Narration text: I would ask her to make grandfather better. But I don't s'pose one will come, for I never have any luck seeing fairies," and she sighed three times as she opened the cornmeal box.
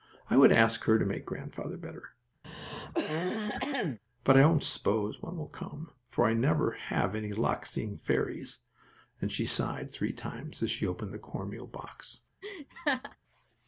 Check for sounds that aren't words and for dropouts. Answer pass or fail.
fail